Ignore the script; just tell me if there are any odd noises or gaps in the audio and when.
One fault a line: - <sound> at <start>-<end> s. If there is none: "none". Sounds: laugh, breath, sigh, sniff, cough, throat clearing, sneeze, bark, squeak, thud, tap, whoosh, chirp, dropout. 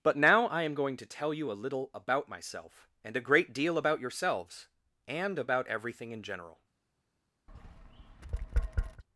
- tap at 7.5-9.0 s